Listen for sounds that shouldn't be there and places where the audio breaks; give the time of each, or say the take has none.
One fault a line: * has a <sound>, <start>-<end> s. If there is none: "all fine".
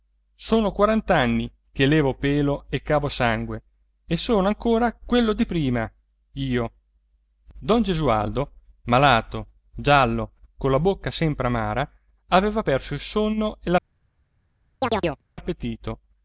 * has a chirp, 14.8-15.2 s